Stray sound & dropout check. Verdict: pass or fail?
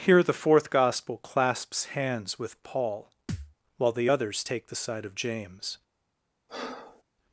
fail